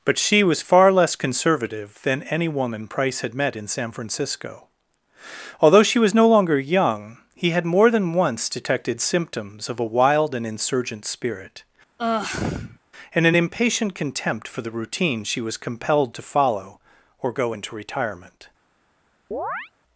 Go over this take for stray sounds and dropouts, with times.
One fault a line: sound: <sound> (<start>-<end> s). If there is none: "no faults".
sound: sigh (12.0-12.8 s)
sound: chirp (19.3-19.7 s)